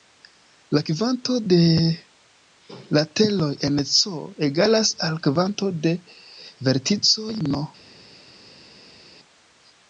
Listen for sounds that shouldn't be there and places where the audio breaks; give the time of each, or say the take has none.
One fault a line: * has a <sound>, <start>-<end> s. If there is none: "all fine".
all fine